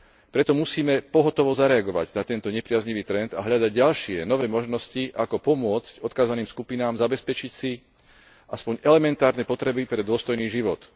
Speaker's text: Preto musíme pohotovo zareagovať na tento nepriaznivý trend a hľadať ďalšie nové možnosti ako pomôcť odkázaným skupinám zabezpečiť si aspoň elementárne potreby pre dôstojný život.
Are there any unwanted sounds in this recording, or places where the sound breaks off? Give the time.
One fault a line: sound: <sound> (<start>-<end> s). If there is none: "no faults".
no faults